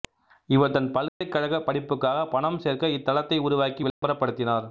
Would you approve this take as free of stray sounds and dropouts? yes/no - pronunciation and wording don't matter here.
no